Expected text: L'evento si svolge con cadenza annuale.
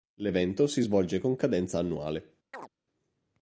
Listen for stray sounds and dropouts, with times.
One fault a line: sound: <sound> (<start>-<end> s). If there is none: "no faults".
sound: chirp (2.5-2.7 s)